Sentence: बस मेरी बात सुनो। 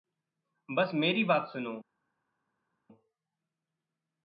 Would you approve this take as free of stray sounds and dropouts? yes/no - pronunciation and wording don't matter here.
yes